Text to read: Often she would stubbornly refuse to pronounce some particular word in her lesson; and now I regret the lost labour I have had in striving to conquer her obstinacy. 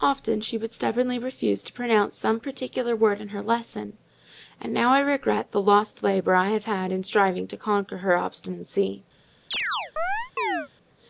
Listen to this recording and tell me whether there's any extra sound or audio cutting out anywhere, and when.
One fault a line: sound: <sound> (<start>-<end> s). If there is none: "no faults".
sound: chirp (9.5-10.7 s)